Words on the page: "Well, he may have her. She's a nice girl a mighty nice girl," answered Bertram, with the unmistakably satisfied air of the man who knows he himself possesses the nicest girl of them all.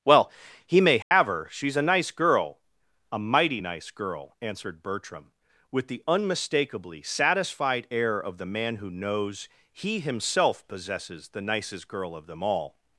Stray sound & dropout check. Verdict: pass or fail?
fail